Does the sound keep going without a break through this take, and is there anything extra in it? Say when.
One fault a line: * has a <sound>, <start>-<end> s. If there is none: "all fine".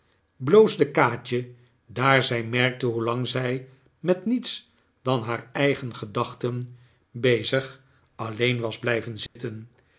* has a dropout, 9.3-9.4 s